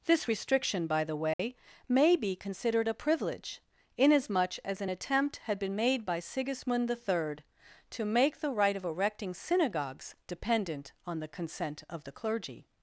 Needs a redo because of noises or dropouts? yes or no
yes